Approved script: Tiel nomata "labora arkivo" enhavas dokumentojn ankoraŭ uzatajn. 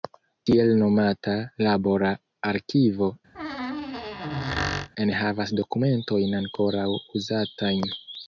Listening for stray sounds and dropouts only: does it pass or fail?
fail